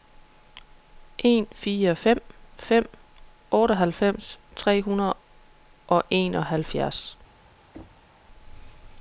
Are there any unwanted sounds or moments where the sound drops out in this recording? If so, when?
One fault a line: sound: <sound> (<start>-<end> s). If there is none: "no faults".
sound: thud (7.7-8.1 s)